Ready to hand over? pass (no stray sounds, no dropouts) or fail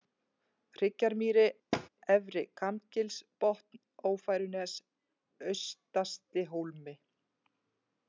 fail